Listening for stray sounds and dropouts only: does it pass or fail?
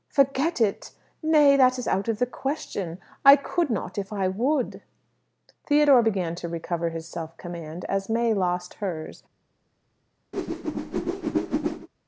fail